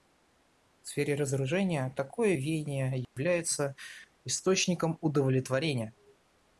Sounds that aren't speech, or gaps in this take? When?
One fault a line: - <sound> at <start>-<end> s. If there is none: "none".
- dropout at 3.0-3.2 s